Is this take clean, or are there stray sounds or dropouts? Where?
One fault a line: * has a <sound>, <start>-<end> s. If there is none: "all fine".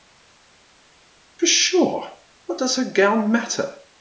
all fine